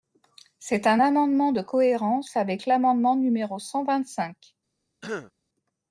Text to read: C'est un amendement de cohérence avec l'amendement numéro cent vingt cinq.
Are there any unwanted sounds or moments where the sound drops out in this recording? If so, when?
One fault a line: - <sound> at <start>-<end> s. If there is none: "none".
- throat clearing at 5.0-5.3 s